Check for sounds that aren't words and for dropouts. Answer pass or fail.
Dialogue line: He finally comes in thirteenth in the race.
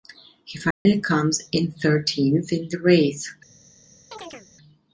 fail